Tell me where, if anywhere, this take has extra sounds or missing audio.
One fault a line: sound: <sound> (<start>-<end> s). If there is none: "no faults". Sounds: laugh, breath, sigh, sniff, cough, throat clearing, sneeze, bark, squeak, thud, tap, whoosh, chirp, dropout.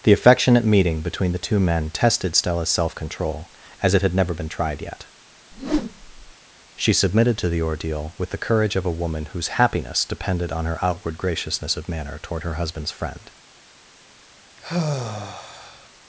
sound: whoosh (5.5-6.3 s)
sound: sigh (14.6-15.9 s)